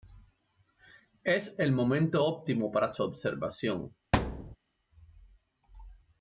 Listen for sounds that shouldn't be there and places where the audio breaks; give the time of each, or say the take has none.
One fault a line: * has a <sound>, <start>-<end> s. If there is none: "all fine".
* has a thud, 4.1-4.6 s